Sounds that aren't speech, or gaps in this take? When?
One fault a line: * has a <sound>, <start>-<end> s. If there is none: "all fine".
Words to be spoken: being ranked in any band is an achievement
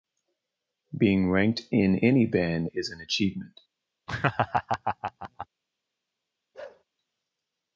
* has a laugh, 4.1-5.5 s
* has a bark, 6.5-6.8 s